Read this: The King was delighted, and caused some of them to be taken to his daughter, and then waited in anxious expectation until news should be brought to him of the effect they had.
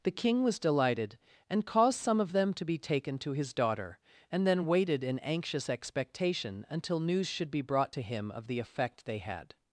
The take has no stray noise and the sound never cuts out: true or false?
true